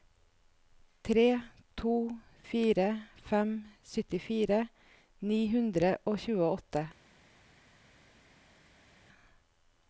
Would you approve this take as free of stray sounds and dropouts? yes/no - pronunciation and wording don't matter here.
yes